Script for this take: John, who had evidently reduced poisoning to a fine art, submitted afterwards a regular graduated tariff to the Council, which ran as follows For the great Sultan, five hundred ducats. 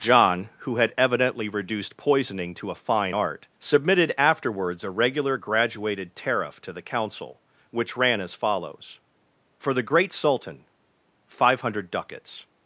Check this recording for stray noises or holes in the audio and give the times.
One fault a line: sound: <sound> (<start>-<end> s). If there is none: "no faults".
no faults